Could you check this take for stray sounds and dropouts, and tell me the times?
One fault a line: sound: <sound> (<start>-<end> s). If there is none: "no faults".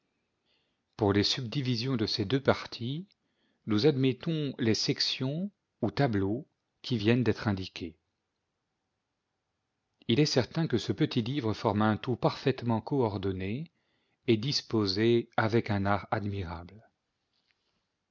no faults